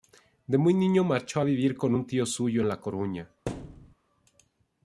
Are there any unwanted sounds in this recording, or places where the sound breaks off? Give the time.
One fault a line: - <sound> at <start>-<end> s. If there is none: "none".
- thud at 3.5-3.9 s